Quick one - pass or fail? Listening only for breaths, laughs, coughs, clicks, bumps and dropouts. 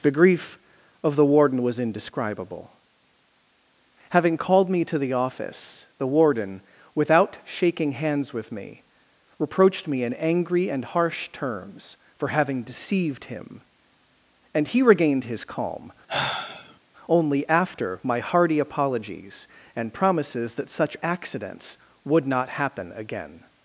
fail